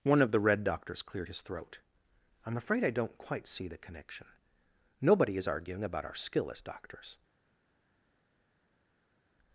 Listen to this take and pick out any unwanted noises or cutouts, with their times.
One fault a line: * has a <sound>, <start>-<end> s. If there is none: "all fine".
all fine